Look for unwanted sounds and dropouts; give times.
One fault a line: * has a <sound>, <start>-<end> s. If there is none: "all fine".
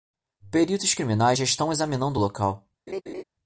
* has a laugh, 2.9-3.2 s